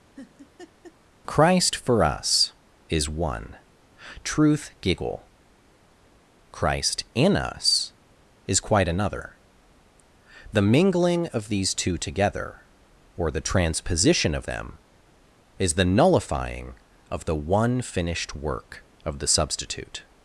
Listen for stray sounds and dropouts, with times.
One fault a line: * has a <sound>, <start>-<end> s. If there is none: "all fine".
* has a laugh, 0.2-1.0 s